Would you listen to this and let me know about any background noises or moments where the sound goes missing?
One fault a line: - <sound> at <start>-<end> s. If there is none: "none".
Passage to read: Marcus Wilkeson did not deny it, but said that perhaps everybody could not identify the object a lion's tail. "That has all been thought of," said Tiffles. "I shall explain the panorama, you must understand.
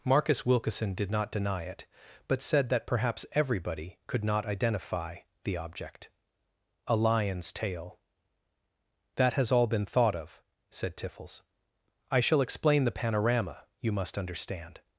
none